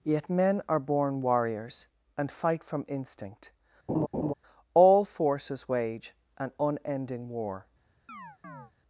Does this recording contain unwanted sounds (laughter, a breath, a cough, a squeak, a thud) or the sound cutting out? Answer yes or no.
yes